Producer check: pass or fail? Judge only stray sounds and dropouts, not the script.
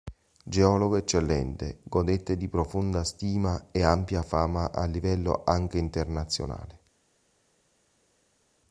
pass